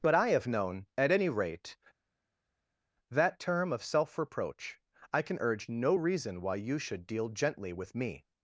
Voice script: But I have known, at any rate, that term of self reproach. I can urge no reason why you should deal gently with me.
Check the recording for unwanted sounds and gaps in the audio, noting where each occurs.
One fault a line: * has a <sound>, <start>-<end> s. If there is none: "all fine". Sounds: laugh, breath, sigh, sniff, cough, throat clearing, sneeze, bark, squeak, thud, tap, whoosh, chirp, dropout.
all fine